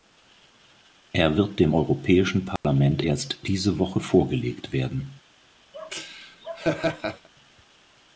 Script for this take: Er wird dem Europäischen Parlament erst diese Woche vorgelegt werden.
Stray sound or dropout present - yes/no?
yes